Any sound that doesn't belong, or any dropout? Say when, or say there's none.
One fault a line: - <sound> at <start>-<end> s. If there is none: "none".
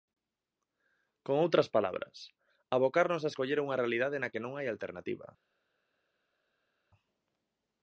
none